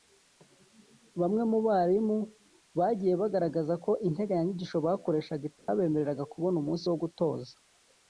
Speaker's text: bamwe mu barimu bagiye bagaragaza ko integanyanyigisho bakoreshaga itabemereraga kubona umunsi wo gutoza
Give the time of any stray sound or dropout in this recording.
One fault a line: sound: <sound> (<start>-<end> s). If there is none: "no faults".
sound: dropout (5.6-5.7 s)